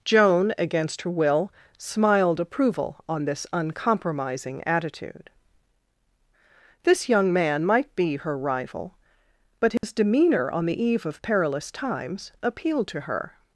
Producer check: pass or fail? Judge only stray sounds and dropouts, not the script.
fail